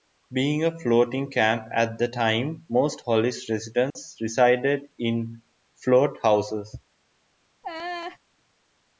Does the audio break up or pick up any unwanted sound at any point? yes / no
yes